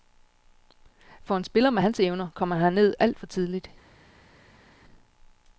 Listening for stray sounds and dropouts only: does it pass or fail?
pass